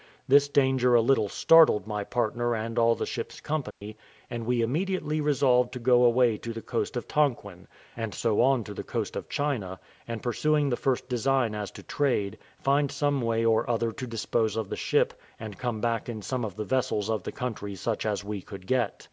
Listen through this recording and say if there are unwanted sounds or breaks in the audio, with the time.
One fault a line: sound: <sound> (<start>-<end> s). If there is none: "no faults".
sound: dropout (3.7-3.8 s)